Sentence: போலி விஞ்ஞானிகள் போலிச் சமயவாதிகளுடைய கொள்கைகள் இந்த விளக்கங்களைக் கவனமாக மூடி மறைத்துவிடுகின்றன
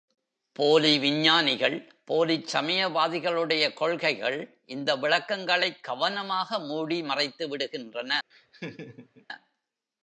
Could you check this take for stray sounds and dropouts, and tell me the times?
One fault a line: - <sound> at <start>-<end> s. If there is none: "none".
- laugh at 8.3-9.3 s